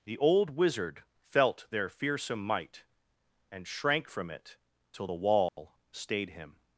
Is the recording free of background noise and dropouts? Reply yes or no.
no